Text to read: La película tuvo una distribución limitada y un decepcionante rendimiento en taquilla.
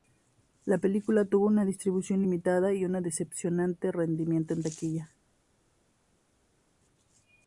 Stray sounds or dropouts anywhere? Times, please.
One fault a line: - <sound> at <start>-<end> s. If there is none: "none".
none